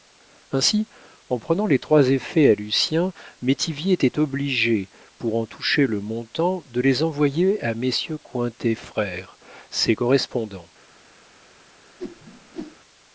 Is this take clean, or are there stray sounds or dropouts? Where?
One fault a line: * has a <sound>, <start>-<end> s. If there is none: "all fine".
* has a whoosh, 12.0-12.8 s